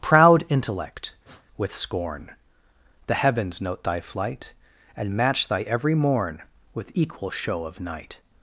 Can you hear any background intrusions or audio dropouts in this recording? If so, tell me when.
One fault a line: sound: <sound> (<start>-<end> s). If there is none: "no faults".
sound: sniff (1.2-1.5 s)